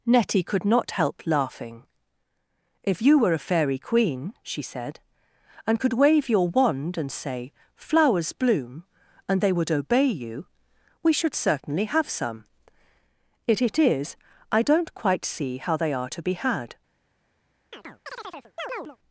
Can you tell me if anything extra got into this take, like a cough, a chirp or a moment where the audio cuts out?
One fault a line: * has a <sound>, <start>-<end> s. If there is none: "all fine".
* has a chirp, 17.7-19.0 s